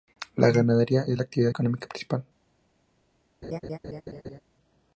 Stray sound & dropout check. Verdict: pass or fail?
fail